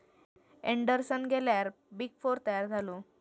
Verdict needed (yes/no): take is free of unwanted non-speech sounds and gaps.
yes